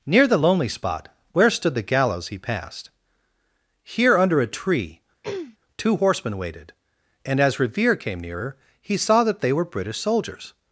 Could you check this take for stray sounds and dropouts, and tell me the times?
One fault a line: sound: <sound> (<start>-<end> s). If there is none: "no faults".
sound: throat clearing (5.2-5.6 s)